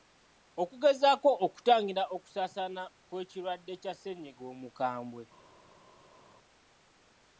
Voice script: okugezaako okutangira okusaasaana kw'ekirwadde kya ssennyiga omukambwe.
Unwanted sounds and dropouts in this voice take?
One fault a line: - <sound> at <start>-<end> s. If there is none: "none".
none